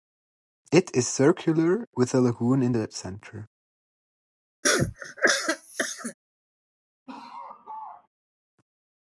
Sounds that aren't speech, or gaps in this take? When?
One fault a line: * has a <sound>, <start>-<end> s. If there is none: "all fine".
* has a cough, 4.6-6.1 s
* has a laugh, 7.1-8.1 s